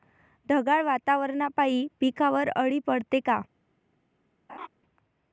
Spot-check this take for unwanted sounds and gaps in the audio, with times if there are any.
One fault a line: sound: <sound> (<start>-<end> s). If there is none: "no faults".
sound: laugh (4.5-4.7 s)